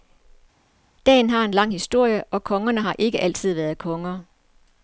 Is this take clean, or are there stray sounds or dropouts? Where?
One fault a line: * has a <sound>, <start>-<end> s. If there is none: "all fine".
all fine